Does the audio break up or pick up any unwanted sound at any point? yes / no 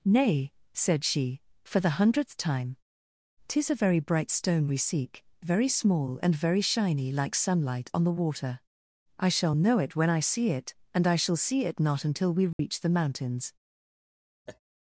yes